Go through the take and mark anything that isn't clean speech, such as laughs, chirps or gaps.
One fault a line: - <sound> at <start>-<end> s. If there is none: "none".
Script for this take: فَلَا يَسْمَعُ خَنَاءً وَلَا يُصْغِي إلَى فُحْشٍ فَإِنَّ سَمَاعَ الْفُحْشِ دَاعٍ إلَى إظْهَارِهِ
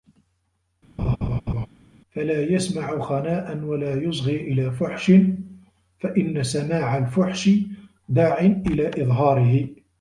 - laugh at 1.0-1.7 s